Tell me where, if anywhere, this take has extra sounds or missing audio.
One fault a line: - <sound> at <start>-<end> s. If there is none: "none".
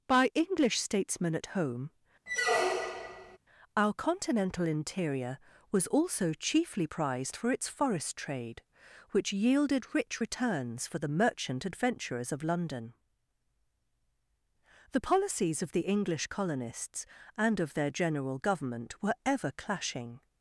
- squeak at 2.3-3.4 s